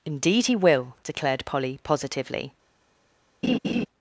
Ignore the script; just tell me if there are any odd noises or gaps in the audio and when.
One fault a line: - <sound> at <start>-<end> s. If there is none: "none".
- laugh at 3.4-3.9 s